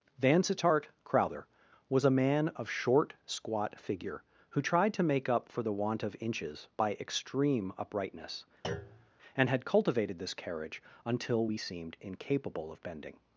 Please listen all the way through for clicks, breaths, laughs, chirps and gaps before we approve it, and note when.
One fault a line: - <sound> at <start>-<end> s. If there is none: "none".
- thud at 8.6-9.1 s